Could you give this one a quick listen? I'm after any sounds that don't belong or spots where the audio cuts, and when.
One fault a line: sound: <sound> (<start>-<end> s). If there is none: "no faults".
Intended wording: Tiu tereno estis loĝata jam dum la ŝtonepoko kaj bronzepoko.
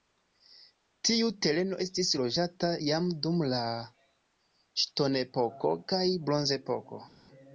no faults